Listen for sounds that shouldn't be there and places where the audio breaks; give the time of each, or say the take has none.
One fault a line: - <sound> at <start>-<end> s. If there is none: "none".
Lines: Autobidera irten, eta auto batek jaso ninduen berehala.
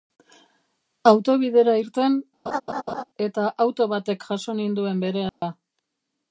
- laugh at 2.5-3.0 s
- dropout at 5.3-5.4 s